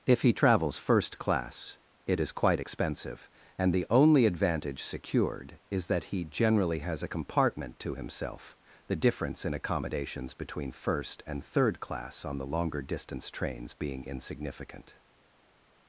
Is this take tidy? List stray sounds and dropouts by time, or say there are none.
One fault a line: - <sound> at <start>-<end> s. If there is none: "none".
none